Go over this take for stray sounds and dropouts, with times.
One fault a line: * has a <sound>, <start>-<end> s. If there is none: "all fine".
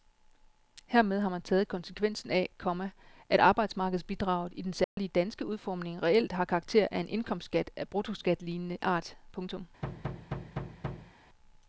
* has a dropout, 4.8-5.0 s
* has a thud, 9.8-11.1 s